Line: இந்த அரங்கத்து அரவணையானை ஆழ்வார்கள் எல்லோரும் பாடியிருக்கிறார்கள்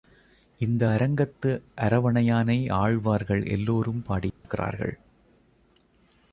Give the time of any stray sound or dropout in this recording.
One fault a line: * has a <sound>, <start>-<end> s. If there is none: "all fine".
* has a dropout, 4.3-4.4 s